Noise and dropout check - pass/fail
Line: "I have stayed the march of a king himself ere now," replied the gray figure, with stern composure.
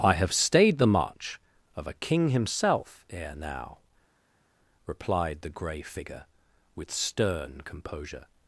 pass